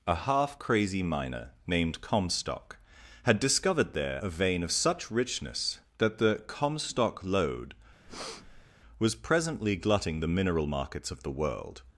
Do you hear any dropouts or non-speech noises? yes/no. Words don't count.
yes